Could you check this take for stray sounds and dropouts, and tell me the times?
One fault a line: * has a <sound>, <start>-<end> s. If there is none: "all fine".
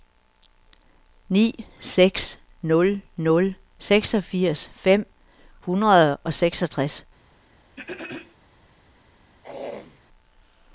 * has a throat clearing, 7.8-8.4 s
* has a throat clearing, 9.4-10.0 s